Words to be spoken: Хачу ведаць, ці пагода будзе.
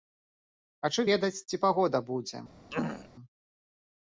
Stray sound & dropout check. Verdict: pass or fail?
fail